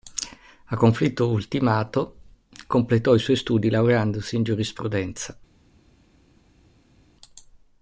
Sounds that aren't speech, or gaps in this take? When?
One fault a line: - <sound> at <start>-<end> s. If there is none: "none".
none